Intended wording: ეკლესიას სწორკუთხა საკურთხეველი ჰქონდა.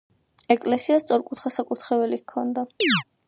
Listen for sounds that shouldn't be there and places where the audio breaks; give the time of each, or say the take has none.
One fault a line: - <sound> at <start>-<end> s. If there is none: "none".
- chirp at 2.8-3.0 s